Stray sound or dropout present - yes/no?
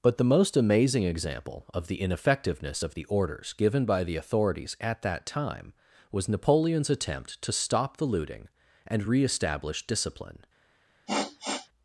yes